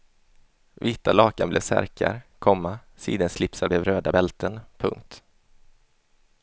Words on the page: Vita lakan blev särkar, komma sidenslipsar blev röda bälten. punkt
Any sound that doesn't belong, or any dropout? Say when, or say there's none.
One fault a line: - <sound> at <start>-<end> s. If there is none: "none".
none